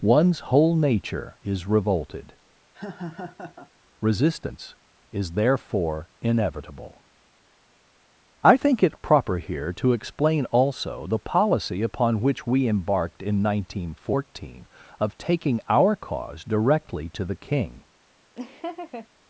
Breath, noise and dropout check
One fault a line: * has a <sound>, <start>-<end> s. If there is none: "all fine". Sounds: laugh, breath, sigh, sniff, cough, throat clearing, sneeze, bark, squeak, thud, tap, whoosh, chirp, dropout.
* has a laugh, 2.7-3.7 s
* has a laugh, 18.3-19.1 s